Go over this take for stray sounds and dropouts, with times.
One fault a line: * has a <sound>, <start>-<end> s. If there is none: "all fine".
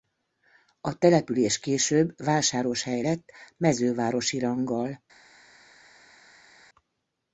all fine